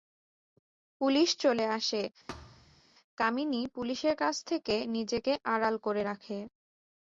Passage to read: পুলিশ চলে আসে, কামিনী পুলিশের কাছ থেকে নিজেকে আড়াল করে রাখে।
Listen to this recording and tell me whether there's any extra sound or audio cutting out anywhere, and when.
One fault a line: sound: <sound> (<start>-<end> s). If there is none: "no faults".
sound: thud (2.3-2.8 s)